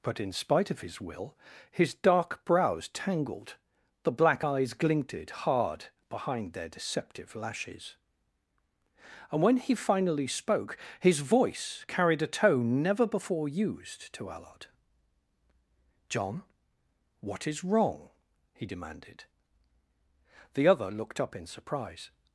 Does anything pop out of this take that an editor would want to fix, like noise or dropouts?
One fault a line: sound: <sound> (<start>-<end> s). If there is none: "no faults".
no faults